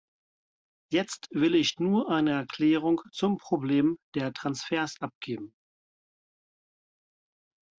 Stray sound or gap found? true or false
false